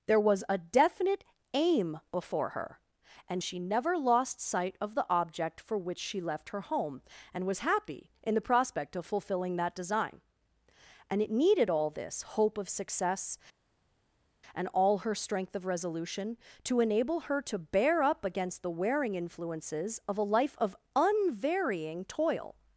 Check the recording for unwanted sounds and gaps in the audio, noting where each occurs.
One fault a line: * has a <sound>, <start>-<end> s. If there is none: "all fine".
all fine